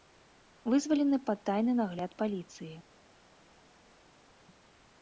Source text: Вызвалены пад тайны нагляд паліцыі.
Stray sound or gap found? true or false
false